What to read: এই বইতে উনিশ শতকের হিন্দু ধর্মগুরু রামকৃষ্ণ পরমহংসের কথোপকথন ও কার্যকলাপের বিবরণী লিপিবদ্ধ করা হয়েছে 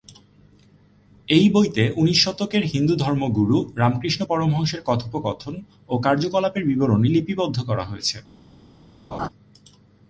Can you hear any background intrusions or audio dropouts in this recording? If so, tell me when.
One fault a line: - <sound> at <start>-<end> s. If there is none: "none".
- laugh at 9.1-9.3 s